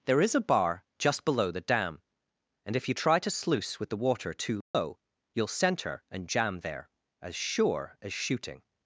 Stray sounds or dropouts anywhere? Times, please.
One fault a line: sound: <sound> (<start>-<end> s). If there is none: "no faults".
sound: dropout (4.6-4.7 s)